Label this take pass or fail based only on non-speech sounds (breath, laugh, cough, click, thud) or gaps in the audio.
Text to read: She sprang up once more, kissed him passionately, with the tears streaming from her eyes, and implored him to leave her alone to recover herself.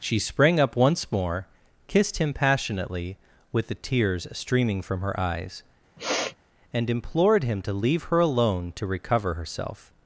fail